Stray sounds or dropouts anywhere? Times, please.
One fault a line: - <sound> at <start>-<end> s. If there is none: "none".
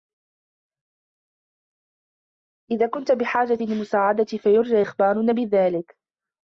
none